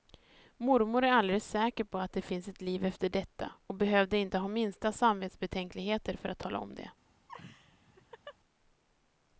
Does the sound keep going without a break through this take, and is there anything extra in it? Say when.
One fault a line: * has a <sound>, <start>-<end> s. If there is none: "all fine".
* has a laugh, 7.3-8.4 s